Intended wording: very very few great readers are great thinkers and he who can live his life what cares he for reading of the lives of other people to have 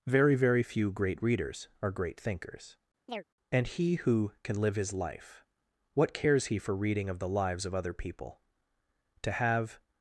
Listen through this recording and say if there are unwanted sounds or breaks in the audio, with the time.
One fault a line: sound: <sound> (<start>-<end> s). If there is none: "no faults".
sound: chirp (3.1-3.2 s)